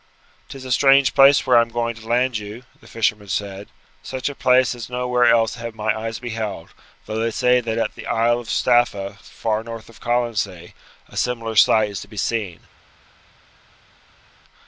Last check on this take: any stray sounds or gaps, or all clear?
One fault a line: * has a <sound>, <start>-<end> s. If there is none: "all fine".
all fine